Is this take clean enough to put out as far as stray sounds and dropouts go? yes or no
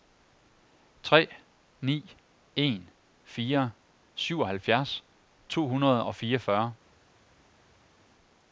yes